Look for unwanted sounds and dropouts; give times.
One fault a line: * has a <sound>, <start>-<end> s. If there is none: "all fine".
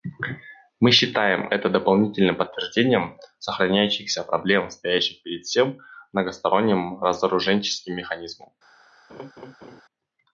* has a laugh, 9.1-9.8 s